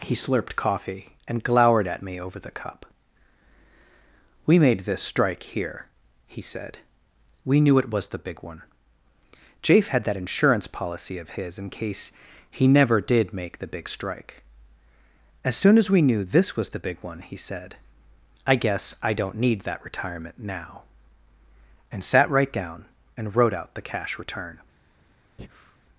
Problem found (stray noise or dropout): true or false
true